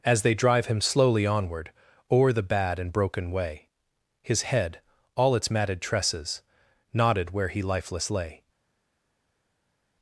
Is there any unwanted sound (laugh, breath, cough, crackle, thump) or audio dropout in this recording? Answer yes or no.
no